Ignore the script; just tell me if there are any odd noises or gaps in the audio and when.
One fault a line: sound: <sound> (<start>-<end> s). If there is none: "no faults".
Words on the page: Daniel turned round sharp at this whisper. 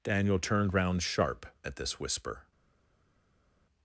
no faults